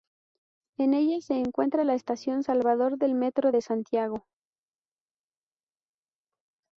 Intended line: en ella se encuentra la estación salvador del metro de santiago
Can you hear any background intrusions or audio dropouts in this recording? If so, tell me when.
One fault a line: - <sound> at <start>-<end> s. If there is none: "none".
none